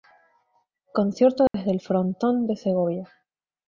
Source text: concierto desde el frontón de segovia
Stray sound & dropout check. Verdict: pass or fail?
fail